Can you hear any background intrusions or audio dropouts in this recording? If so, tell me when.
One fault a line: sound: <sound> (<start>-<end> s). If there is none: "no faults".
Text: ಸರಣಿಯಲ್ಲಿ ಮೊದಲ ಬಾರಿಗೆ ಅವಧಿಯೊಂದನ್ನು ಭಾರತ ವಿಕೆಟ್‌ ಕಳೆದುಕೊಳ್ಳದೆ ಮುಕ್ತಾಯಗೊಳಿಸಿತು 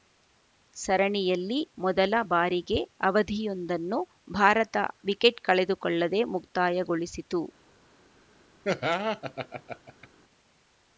sound: laugh (8.6-10.1 s)